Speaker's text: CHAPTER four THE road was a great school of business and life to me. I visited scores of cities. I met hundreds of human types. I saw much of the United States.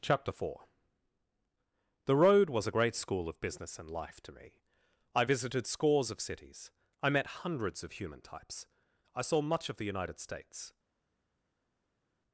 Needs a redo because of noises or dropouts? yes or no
no